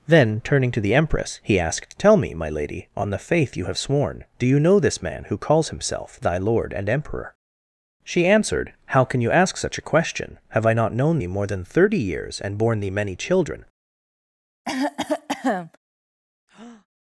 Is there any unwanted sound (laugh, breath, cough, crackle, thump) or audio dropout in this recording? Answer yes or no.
yes